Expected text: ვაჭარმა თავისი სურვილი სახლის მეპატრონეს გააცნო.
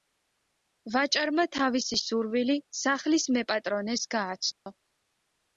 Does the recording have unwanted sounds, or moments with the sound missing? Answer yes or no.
yes